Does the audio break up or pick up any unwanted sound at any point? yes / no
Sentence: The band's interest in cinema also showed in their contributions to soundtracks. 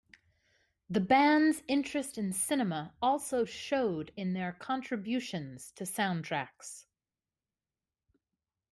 no